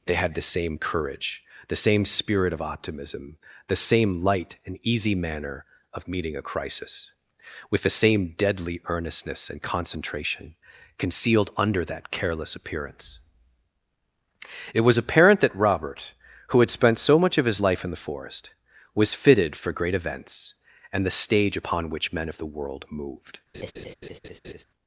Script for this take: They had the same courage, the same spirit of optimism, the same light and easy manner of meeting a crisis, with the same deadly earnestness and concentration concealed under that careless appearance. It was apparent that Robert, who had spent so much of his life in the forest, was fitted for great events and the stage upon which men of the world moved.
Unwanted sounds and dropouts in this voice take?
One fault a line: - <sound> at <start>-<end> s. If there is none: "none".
- laugh at 23.5-24.6 s